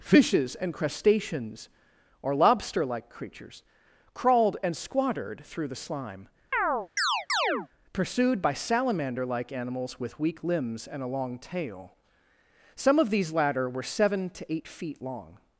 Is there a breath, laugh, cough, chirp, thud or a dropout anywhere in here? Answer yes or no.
yes